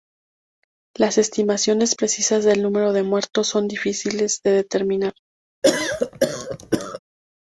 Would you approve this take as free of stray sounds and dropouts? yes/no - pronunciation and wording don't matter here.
no